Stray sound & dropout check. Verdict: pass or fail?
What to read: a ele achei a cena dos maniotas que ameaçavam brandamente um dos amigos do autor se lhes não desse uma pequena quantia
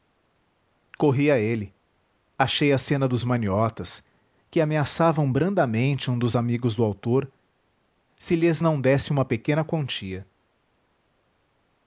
pass